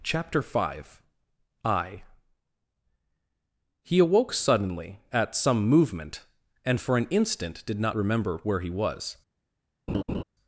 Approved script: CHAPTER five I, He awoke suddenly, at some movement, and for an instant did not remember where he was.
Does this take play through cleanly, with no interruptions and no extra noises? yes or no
no